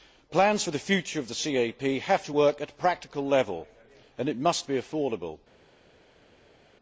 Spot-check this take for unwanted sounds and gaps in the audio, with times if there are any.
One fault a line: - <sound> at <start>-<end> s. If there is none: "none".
none